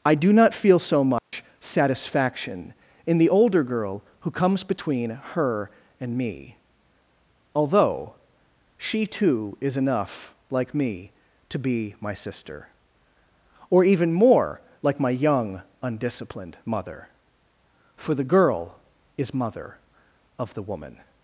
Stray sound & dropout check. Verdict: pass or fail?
fail